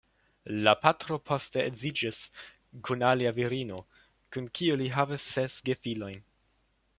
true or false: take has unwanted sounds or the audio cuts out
false